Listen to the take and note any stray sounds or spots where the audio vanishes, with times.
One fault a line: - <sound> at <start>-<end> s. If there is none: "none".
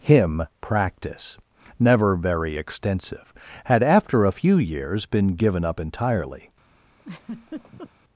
- laugh at 7.0-7.9 s